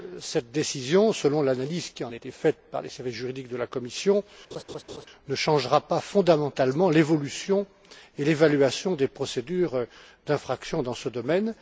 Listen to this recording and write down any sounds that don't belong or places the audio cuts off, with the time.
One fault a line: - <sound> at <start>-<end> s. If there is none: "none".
- laugh at 4.5-5.1 s